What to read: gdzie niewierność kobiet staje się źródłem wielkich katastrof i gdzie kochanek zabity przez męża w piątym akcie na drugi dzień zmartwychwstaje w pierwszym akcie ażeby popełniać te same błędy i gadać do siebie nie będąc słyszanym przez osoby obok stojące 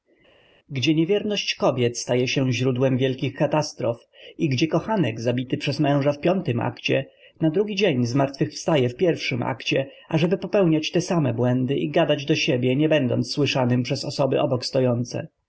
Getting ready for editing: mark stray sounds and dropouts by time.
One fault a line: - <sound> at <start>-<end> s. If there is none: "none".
none